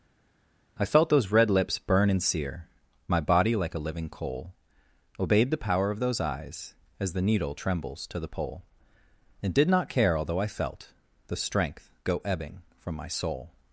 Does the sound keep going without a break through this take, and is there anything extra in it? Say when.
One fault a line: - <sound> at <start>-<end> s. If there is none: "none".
none